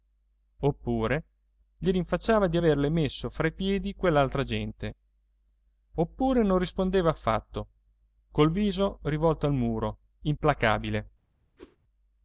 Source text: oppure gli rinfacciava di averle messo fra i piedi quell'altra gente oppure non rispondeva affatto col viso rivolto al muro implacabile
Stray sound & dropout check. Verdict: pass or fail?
fail